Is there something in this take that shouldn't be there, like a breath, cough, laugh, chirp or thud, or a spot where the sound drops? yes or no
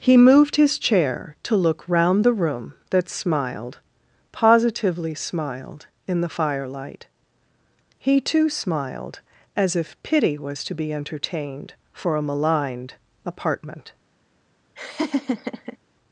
yes